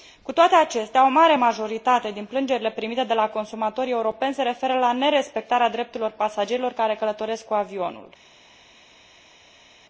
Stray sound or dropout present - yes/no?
no